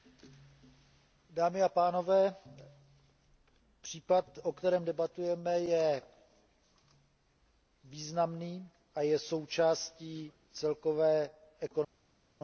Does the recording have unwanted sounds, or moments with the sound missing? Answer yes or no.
no